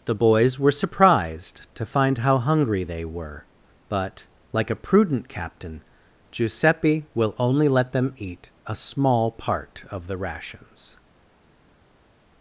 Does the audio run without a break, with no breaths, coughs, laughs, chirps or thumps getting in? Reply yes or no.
yes